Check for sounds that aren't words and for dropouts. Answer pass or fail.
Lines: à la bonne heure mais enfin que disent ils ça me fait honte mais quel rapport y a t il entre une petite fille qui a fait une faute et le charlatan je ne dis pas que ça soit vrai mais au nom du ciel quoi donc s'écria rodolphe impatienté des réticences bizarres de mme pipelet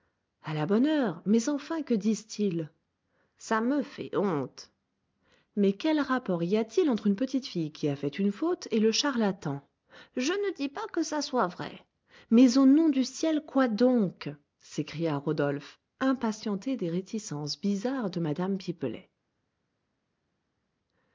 pass